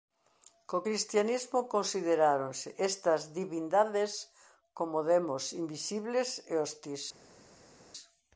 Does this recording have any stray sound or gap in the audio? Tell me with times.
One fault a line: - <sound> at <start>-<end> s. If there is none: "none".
none